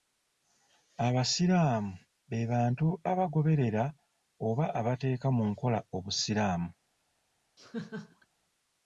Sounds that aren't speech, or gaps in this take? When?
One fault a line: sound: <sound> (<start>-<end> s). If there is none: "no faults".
sound: laugh (7.6-8.3 s)